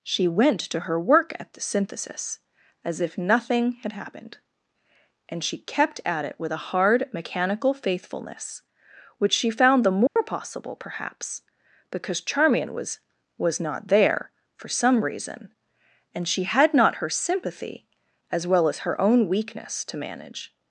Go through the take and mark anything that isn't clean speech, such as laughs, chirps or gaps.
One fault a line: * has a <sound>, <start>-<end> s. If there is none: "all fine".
* has a dropout, 10.1-10.2 s